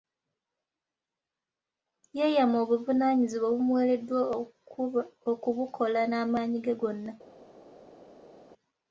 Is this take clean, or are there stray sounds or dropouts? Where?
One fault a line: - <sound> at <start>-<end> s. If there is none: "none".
none